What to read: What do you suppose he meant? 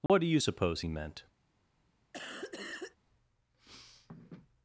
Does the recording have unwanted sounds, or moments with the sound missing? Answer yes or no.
yes